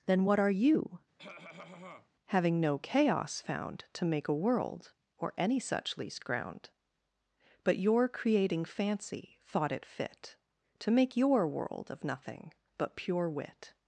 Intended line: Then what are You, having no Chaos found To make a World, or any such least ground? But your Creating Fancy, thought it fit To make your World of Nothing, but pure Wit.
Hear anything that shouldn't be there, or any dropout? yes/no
yes